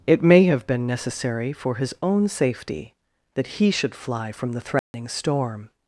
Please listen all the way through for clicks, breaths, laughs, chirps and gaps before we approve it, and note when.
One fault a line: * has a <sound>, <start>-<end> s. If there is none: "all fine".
* has a dropout, 4.8-4.9 s